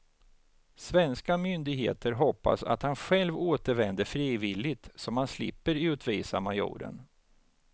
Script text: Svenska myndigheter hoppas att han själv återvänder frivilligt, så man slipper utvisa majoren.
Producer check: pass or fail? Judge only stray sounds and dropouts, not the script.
pass